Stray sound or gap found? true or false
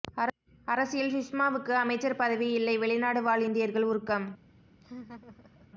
true